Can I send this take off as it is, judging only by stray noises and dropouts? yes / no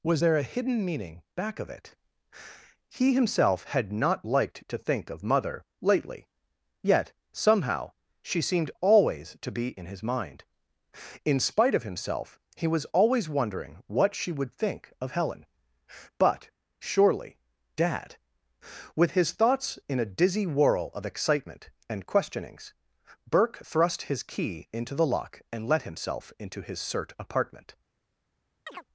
no